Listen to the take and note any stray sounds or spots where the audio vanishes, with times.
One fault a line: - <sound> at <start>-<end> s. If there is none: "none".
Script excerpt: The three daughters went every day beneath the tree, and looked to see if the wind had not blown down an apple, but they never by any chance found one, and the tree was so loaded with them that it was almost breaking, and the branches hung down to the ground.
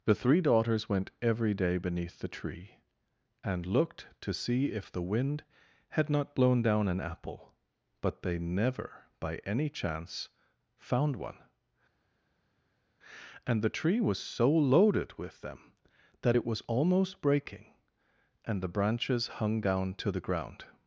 none